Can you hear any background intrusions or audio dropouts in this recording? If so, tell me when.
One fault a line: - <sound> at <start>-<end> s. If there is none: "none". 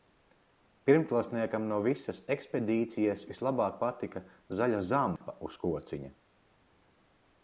- dropout at 5.2-5.2 s